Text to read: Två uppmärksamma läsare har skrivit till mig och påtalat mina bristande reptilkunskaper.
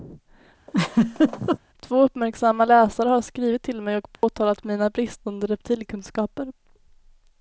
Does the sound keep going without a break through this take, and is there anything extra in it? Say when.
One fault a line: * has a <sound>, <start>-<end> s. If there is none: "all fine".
* has a laugh, 0.7-1.6 s
* has a dropout, 4.2-4.2 s